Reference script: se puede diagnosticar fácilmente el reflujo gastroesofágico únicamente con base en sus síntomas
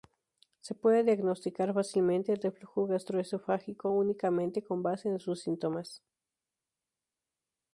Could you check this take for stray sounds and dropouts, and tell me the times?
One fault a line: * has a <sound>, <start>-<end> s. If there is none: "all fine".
all fine